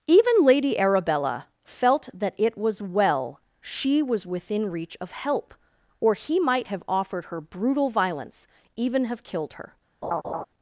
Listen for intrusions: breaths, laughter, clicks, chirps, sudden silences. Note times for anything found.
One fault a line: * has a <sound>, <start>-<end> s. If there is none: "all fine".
* has a laugh, 10.0-10.5 s